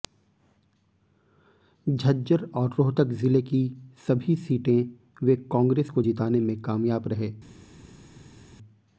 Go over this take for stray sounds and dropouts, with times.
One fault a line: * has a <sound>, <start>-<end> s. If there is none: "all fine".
all fine